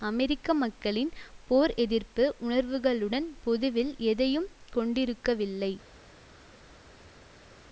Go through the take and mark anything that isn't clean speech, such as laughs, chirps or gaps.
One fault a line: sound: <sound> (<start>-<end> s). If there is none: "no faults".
no faults